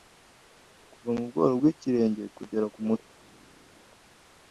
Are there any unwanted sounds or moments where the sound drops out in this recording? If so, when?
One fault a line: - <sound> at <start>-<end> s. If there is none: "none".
none